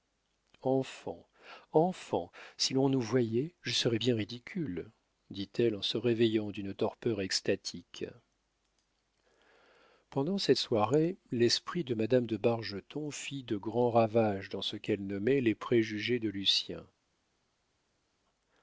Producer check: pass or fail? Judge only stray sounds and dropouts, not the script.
pass